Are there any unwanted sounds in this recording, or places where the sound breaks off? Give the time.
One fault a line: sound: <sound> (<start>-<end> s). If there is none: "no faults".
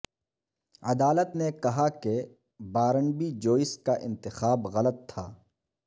no faults